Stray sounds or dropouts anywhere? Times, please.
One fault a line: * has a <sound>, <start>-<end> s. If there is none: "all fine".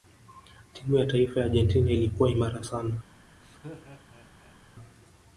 * has a laugh, 3.4-4.6 s